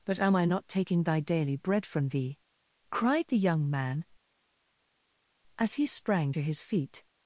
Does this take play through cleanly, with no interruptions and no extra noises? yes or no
yes